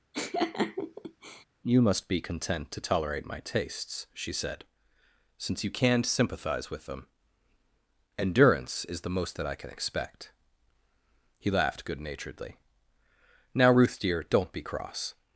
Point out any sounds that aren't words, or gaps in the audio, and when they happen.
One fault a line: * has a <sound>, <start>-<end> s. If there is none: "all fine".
* has a laugh, 0.1-1.4 s